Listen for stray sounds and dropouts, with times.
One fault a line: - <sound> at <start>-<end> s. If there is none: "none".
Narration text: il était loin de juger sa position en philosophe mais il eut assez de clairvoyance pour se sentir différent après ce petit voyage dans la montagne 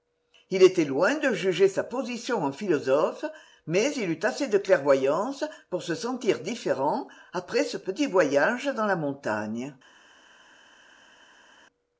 none